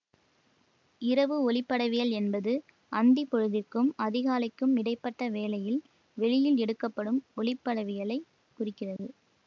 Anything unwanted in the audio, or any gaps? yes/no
yes